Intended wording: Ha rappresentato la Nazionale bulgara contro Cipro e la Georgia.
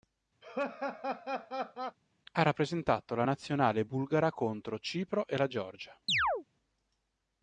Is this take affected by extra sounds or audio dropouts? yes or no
yes